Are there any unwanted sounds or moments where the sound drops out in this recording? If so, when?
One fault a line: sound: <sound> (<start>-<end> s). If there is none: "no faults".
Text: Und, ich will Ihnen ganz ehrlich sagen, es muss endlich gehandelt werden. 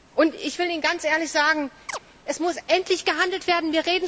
sound: chirp (1.9-2.0 s)